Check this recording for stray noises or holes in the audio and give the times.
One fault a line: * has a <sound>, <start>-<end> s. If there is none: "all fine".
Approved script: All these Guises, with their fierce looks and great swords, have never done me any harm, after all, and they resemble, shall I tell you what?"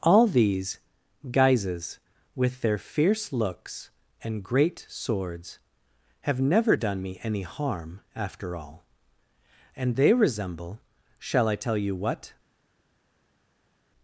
all fine